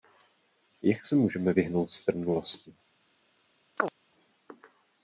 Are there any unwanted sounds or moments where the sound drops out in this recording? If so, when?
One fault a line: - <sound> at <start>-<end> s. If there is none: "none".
- chirp at 3.8-3.9 s